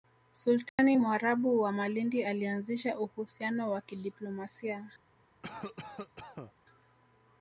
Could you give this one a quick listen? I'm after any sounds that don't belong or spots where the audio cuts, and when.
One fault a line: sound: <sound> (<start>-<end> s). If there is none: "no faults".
sound: dropout (0.7-0.8 s)
sound: cough (5.4-6.5 s)